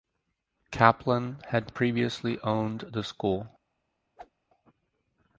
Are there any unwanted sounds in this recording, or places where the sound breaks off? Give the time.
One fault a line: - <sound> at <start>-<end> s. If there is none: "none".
- whoosh at 4.2-4.3 s